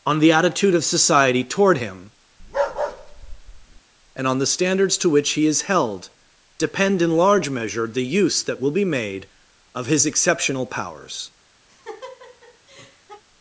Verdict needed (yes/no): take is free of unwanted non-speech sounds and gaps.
no